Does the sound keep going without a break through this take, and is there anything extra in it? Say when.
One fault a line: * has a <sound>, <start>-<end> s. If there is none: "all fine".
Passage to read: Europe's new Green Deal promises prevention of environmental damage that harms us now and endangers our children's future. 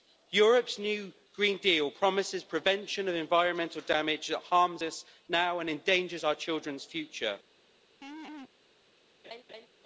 * has a laugh, 8.0-8.5 s
* has a laugh, 9.2-9.7 s